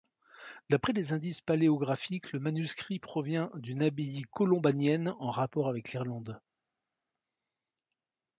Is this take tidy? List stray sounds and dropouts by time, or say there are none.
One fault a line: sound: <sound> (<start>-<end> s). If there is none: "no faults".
no faults